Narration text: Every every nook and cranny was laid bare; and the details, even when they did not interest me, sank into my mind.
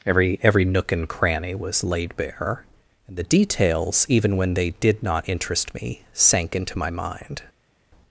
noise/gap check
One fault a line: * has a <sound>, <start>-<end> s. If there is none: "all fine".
all fine